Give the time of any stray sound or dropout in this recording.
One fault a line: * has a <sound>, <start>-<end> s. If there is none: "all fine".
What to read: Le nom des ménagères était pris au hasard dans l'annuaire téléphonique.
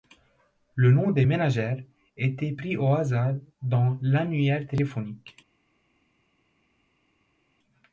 all fine